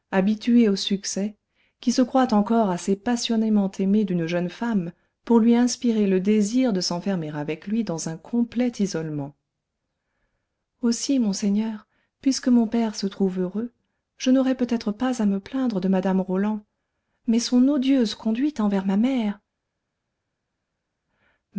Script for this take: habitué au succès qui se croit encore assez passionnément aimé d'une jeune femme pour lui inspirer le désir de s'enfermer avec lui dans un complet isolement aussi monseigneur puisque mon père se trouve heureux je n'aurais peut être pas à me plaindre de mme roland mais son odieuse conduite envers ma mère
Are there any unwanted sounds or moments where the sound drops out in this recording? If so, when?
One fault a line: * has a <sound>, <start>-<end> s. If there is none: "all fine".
all fine